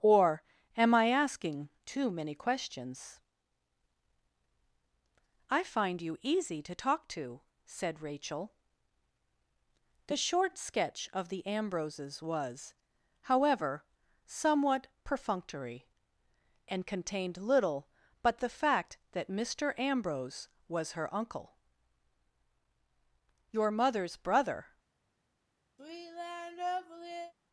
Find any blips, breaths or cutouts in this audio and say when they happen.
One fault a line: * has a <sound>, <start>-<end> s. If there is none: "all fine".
* has a sigh, 25.8-27.3 s